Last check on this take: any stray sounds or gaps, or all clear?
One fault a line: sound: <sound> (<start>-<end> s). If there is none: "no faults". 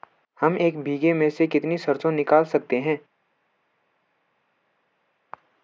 no faults